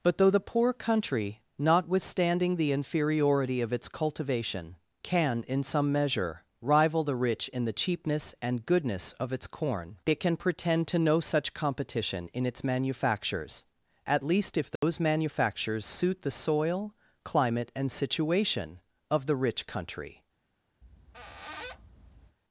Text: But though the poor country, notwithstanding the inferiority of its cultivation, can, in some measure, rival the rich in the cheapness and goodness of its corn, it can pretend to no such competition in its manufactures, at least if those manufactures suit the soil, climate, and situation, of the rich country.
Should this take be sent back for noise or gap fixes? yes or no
yes